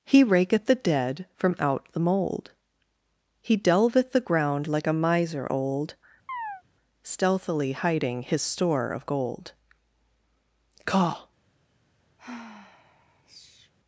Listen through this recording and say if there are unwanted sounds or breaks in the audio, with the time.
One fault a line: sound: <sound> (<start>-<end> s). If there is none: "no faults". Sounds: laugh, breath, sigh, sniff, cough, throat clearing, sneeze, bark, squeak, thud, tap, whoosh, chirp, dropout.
sound: chirp (6.3-6.6 s)
sound: sigh (12.2-13.7 s)